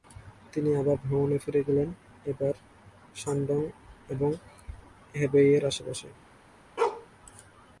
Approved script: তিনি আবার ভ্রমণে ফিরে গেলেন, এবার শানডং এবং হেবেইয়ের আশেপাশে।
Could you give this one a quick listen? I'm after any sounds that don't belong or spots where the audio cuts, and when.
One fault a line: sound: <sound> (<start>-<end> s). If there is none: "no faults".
sound: bark (6.8-7.1 s)